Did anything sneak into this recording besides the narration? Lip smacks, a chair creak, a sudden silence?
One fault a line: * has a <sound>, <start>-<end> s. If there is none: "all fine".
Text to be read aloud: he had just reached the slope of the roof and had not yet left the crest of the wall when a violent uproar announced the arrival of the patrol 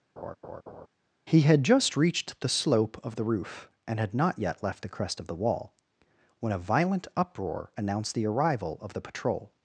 * has a laugh, 0.2-0.9 s